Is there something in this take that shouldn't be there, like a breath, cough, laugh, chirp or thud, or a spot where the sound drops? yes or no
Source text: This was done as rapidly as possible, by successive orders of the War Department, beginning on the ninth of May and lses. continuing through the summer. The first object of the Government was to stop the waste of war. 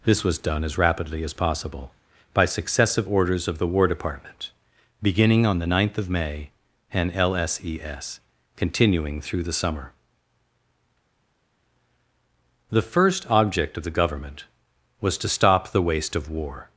no